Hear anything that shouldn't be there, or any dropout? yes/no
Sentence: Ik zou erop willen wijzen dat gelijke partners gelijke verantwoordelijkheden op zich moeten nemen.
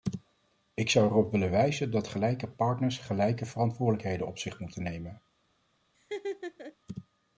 yes